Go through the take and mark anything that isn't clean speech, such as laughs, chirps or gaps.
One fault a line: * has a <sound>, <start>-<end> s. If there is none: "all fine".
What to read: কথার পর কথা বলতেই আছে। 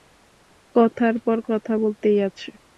all fine